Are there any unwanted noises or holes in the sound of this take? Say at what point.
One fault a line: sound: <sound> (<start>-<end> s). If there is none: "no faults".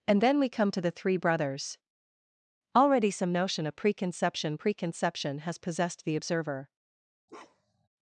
sound: bark (7.3-7.9 s)